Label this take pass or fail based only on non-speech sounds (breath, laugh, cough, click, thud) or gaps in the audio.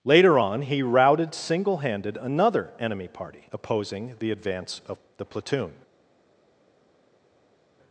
pass